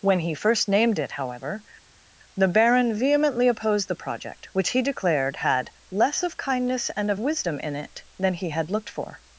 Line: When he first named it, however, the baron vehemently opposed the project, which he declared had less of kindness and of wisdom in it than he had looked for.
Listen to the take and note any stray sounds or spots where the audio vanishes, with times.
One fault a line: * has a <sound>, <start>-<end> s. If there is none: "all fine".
all fine